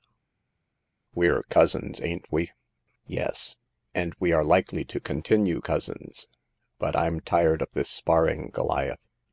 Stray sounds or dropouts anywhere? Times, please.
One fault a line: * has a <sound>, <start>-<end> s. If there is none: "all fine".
all fine